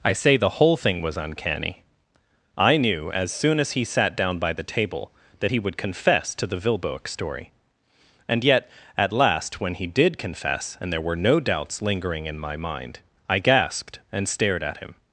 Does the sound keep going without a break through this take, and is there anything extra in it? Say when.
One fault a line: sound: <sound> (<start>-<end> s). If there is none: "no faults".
no faults